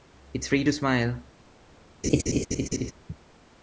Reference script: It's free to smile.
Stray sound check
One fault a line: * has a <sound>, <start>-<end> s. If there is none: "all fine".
* has a laugh, 2.0-2.9 s